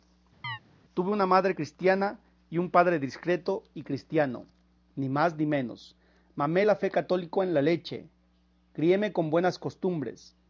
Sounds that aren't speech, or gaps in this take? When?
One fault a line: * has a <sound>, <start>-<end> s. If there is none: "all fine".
* has a chirp, 0.4-0.6 s